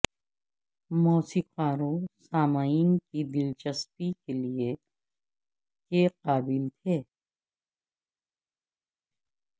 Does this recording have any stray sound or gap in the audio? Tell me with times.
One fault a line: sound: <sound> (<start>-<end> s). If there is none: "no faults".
no faults